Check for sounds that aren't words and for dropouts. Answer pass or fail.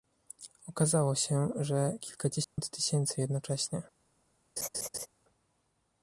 fail